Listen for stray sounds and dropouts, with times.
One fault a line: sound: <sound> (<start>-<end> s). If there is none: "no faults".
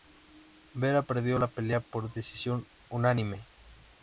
no faults